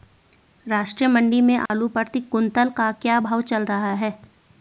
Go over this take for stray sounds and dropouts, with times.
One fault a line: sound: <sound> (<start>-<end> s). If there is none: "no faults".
sound: dropout (1.7-1.7 s)